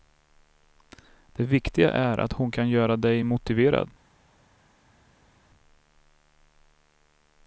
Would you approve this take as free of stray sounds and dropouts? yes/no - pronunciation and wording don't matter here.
yes